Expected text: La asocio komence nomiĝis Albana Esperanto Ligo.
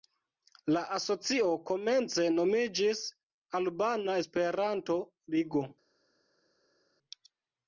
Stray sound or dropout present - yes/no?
no